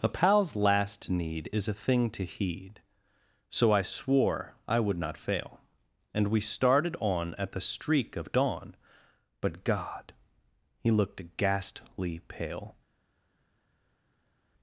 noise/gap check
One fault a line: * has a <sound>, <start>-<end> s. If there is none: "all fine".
all fine